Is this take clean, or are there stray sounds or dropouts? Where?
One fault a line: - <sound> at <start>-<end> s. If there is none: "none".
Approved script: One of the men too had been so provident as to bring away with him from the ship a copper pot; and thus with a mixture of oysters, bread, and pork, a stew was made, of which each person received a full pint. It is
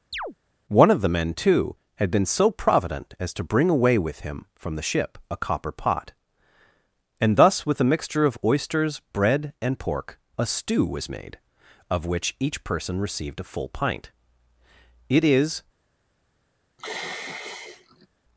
- chirp at 0.1-0.3 s
- sigh at 16.8-18.1 s